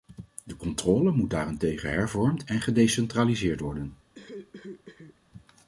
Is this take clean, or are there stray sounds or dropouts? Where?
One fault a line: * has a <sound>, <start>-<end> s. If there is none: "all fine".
* has a cough, 4.1-5.2 s